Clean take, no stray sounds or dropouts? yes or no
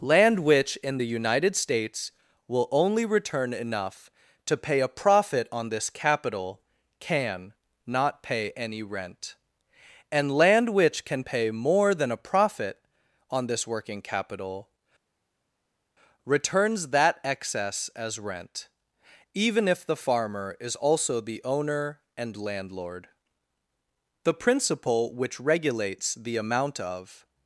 yes